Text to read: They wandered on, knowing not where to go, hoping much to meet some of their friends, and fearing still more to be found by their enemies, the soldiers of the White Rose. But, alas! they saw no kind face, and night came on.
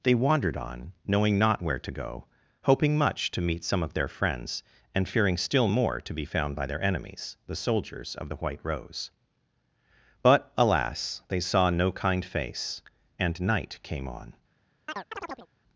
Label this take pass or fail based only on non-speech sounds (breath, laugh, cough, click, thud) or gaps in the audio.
fail